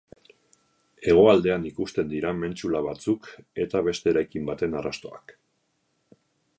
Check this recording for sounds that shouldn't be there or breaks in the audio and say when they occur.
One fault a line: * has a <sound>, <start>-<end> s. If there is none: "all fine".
all fine